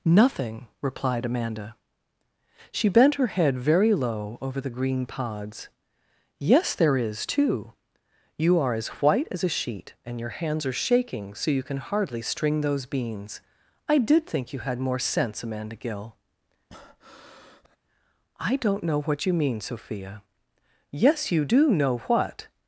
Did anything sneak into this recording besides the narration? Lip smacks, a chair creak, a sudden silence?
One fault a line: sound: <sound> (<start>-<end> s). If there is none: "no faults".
sound: breath (16.7-17.8 s)